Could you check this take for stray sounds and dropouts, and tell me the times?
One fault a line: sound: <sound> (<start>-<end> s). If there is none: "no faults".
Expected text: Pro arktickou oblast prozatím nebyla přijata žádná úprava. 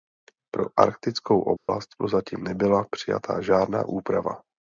sound: dropout (1.6-1.7 s)